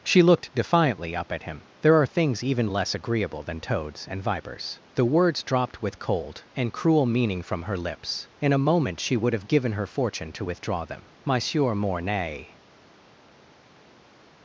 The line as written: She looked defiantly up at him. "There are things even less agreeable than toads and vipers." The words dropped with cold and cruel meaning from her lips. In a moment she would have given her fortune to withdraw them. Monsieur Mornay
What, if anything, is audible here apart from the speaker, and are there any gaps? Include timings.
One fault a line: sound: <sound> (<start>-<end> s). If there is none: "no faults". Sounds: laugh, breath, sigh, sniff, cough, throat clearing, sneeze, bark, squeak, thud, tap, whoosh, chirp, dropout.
no faults